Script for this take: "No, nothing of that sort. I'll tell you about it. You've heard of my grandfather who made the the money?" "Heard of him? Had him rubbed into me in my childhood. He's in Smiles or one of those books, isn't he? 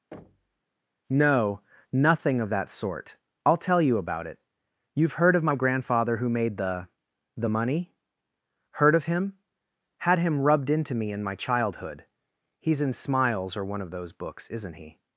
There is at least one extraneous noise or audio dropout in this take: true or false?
true